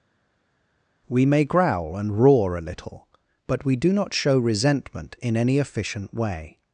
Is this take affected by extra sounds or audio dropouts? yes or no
no